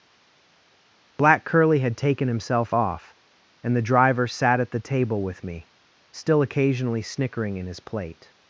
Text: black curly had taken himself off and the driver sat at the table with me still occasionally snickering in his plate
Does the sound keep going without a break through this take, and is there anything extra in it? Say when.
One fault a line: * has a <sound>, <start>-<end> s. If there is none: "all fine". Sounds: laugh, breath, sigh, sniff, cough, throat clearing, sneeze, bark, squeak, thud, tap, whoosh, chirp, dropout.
all fine